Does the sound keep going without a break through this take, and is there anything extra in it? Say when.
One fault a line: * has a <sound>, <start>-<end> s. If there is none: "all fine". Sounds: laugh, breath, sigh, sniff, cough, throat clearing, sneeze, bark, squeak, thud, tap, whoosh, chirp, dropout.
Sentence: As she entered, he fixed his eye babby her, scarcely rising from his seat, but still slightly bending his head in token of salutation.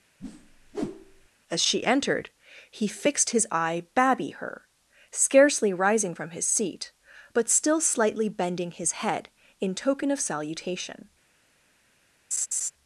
* has a whoosh, 0.2-1.3 s
* has a laugh, 12.3-12.7 s